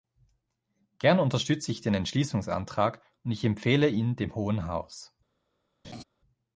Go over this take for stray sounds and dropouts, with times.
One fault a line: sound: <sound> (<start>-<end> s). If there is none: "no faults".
sound: laugh (5.8-6.0 s)